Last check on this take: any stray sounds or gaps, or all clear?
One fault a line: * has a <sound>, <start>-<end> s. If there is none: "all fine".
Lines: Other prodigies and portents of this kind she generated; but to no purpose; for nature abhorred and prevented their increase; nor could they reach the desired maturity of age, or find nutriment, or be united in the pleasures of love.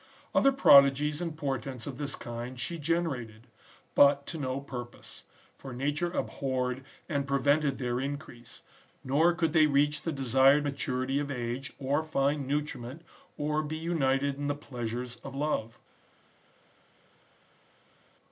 all fine